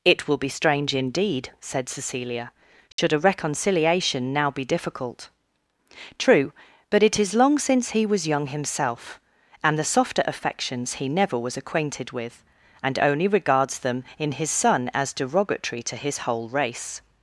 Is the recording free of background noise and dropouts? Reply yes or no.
no